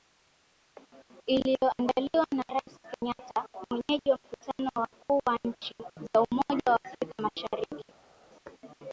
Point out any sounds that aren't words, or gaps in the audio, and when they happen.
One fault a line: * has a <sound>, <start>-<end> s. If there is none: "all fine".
all fine